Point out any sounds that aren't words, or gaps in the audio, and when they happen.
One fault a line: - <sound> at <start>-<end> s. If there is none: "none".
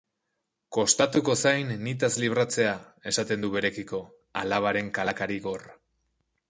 none